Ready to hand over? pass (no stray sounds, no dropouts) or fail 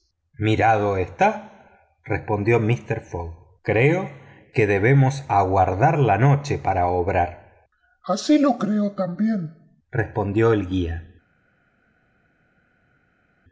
pass